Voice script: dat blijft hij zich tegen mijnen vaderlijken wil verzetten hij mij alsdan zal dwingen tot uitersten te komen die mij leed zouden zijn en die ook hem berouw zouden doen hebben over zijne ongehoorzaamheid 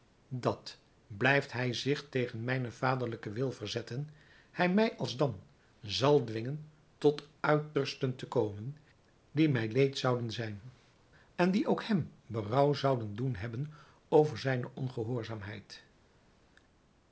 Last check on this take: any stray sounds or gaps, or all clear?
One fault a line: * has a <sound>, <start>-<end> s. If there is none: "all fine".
all fine